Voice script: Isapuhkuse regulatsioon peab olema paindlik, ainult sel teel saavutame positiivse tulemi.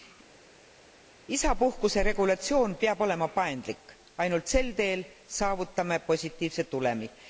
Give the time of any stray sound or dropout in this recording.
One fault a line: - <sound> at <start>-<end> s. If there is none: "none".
none